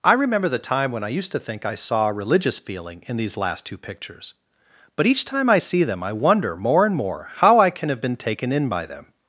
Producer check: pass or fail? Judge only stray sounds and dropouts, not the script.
pass